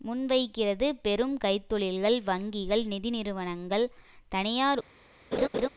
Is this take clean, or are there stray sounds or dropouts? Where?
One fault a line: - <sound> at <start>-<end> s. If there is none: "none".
- laugh at 5.3-5.7 s